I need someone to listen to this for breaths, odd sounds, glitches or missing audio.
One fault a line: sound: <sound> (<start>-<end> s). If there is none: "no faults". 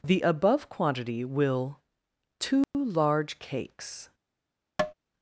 sound: dropout (2.6-2.7 s)
sound: tap (4.8-4.9 s)